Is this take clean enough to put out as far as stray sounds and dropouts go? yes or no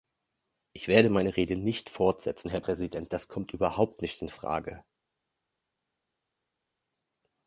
yes